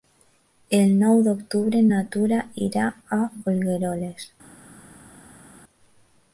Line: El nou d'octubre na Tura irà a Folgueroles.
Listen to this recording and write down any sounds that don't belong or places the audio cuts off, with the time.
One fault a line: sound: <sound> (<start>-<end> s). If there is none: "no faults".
no faults